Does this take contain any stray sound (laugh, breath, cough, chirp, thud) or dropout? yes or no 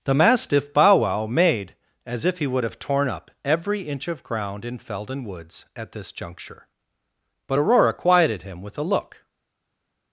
no